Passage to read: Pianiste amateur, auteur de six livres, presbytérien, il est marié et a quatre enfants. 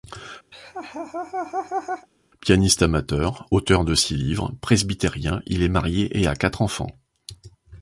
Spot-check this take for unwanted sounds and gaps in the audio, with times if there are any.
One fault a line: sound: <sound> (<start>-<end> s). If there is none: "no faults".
sound: laugh (0.5-2.1 s)